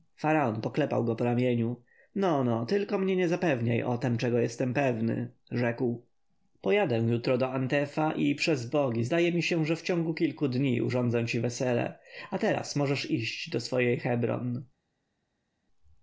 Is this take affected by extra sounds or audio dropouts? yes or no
no